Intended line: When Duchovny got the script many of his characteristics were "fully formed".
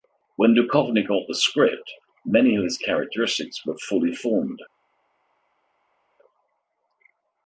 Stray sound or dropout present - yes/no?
no